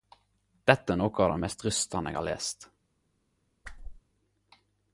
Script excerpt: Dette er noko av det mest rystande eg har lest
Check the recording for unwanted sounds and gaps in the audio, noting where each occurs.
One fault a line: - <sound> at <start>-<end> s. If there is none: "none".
- whoosh at 3.6-4.0 s